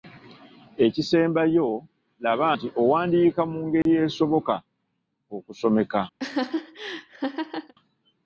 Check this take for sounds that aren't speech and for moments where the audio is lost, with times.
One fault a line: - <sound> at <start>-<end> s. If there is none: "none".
- dropout at 3.8-3.9 s
- laugh at 6.2-7.7 s